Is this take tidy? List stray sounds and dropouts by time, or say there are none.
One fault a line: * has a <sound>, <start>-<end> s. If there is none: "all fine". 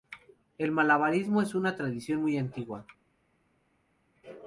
all fine